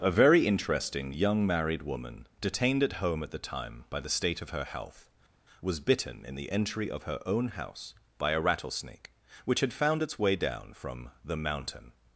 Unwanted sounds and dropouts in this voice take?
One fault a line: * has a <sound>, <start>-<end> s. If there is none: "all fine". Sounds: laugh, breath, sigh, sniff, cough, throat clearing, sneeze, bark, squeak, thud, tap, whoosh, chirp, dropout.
all fine